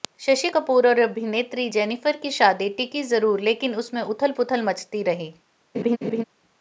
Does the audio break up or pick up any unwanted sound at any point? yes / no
yes